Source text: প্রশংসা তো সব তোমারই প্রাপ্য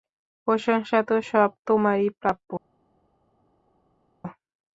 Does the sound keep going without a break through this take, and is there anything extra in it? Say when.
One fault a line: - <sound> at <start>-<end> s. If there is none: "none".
none